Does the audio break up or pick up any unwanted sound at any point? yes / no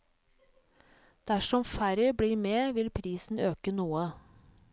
no